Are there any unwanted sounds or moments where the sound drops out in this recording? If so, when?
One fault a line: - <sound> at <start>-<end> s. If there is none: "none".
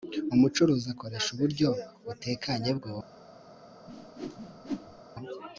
- whoosh at 3.9-5.0 s